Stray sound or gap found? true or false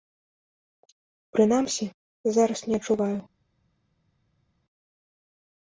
false